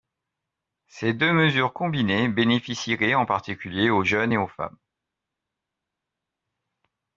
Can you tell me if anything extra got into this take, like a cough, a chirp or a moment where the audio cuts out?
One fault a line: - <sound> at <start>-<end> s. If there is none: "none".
none